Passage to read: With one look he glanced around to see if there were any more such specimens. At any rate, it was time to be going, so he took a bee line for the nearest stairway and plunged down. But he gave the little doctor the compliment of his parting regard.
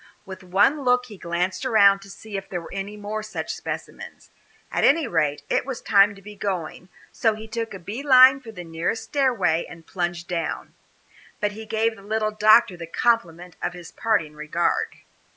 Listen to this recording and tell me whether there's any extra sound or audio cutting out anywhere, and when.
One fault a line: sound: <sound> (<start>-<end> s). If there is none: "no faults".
no faults